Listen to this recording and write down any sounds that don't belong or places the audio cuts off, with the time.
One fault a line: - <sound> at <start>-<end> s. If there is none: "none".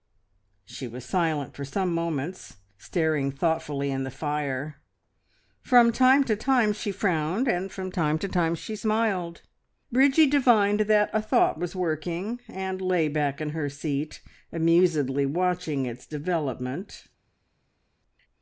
none